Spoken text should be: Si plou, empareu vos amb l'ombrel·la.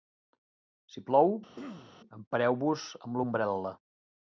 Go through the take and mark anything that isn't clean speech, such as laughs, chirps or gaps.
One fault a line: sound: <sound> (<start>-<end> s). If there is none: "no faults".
sound: throat clearing (1.5-2.0 s)